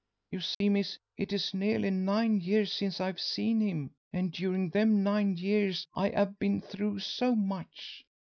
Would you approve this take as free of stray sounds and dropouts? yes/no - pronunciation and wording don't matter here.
no